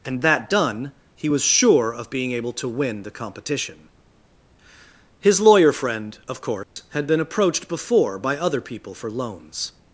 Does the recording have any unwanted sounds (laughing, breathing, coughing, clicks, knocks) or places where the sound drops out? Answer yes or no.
yes